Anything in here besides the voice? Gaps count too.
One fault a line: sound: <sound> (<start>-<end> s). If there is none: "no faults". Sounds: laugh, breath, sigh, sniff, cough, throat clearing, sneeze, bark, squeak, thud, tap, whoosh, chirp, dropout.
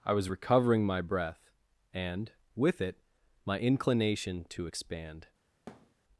sound: thud (5.7-5.9 s)